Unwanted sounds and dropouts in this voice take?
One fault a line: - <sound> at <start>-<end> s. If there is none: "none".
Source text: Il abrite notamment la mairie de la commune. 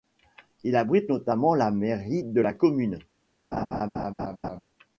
- laugh at 3.5-4.6 s